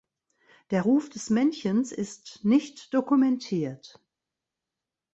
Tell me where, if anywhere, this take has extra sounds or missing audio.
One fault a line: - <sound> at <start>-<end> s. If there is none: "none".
none